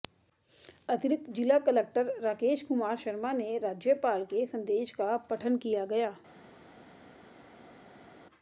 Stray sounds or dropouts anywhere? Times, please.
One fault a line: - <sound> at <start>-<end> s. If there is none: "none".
none